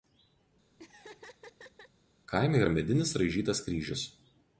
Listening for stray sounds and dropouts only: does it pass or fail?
fail